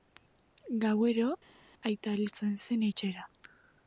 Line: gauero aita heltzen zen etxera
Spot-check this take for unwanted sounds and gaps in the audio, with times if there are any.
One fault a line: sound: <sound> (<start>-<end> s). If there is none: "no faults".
no faults